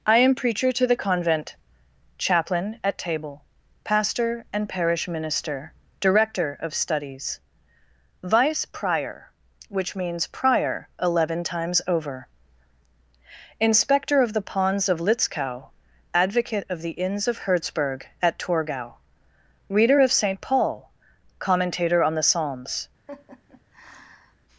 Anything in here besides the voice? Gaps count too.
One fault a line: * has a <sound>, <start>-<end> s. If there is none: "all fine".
* has a laugh, 23.1-24.4 s